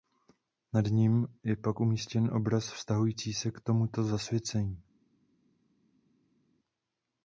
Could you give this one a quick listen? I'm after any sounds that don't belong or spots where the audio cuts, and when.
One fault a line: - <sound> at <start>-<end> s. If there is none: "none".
none